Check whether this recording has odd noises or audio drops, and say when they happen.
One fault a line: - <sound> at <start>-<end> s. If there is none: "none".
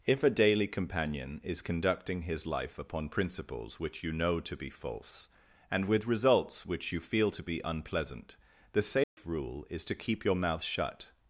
- dropout at 9.0-9.2 s